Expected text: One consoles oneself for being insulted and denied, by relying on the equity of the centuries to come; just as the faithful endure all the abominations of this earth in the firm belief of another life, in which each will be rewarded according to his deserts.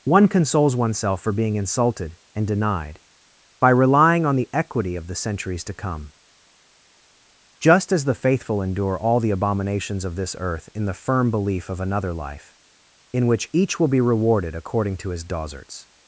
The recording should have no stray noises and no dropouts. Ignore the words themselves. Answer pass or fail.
pass